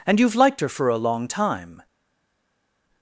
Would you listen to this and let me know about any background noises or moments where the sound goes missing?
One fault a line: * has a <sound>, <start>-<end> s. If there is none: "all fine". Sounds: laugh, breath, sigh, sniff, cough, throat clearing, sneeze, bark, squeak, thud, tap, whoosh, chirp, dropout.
all fine